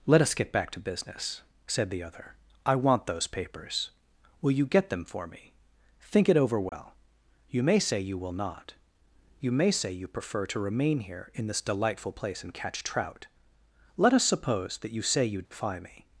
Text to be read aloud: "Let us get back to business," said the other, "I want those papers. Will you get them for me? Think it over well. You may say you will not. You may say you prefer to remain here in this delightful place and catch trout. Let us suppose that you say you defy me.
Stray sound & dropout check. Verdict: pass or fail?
fail